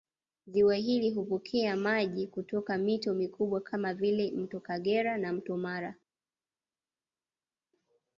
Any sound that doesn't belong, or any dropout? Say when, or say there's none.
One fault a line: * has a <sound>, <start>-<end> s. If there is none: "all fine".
all fine